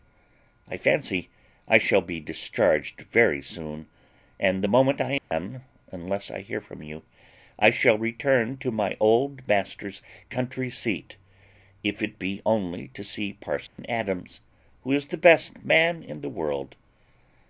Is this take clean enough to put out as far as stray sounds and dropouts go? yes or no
no